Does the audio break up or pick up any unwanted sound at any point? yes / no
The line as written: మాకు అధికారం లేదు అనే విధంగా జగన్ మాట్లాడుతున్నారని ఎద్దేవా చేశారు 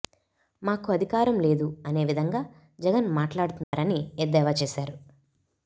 yes